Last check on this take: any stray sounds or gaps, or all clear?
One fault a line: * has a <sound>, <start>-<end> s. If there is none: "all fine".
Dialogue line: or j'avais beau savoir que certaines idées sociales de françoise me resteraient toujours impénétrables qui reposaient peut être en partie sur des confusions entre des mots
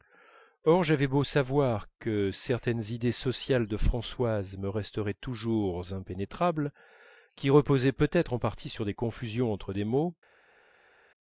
all fine